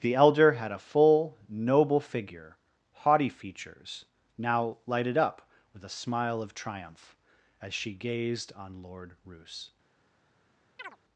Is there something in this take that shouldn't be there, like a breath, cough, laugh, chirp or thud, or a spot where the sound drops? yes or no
yes